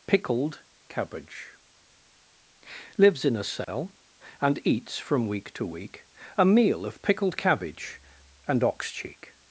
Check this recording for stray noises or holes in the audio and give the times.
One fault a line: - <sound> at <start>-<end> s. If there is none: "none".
none